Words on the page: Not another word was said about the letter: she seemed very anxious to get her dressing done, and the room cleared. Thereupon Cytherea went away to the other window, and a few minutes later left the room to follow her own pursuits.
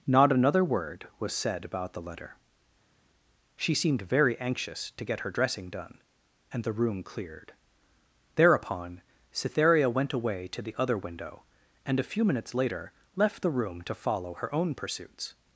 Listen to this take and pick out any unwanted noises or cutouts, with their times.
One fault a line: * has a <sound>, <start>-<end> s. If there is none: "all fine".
all fine